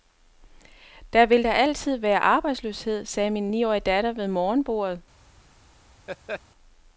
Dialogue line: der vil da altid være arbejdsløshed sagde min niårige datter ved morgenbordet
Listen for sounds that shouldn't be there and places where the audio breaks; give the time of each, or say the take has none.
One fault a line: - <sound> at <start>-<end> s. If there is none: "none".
- laugh at 6.1-6.4 s